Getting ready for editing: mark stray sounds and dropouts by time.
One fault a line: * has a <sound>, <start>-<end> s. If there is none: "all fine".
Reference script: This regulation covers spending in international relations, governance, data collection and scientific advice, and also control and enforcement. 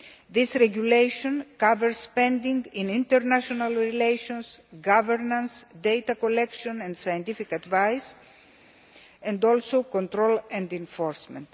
all fine